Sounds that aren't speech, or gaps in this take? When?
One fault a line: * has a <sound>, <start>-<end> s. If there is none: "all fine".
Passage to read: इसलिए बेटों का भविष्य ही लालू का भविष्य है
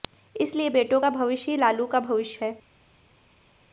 all fine